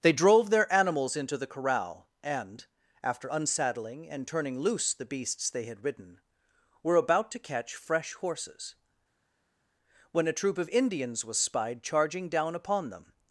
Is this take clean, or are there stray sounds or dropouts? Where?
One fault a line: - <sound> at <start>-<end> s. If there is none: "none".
none